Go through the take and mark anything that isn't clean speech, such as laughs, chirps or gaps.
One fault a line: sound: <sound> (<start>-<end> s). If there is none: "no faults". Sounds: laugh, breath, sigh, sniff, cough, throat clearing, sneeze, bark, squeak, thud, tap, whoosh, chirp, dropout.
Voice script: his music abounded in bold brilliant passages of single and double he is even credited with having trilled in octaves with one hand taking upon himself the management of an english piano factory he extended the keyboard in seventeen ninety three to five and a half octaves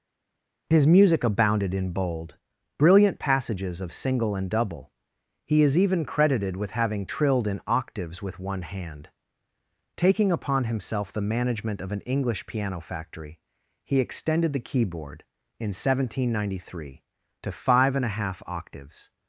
no faults